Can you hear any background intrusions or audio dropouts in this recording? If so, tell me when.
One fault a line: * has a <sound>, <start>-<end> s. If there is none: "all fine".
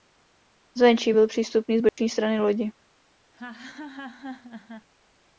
* has a dropout, 1.9-2.0 s
* has a laugh, 3.3-4.9 s